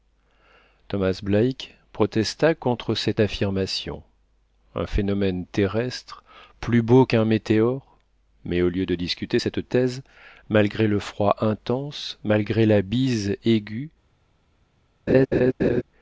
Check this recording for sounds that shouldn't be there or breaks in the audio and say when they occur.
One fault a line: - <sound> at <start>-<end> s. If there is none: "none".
- laugh at 15.1-15.8 s